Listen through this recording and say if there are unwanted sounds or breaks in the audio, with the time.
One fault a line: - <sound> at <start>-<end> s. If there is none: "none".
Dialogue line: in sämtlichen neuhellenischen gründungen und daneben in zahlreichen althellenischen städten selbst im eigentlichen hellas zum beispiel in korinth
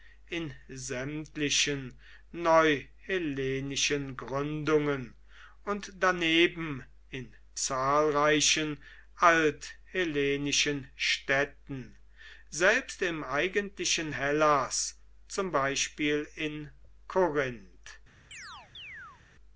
- chirp at 18.3-19.2 s